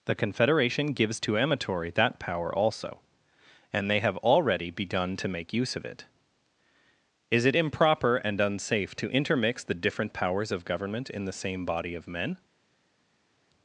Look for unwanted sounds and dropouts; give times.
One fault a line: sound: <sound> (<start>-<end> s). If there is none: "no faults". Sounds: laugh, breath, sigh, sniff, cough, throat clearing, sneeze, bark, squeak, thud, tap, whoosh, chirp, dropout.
no faults